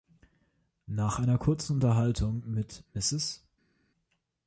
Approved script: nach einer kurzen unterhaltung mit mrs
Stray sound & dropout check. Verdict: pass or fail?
pass